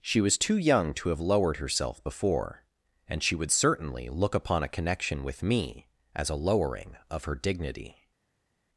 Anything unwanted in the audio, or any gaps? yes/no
no